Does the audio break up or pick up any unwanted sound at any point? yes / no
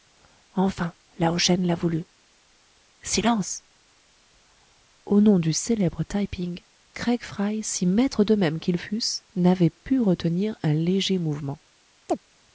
yes